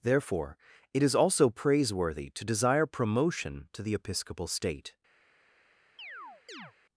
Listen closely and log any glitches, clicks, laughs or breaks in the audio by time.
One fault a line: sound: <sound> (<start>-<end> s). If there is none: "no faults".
sound: chirp (6.0-6.7 s)